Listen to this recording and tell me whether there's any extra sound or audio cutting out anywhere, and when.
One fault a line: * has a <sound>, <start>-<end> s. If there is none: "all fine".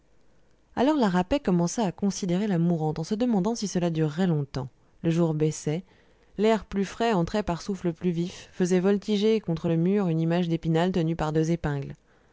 all fine